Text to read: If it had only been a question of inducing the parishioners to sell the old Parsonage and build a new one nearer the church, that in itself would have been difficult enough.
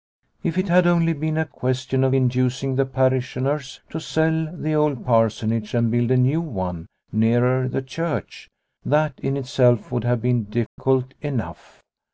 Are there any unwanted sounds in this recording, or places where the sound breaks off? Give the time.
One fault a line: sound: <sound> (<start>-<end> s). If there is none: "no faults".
sound: dropout (10.7-10.8 s)